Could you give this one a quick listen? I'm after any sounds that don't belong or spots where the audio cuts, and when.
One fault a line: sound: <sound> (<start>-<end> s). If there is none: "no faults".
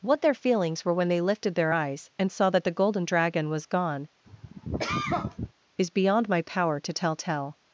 sound: cough (4.2-5.5 s)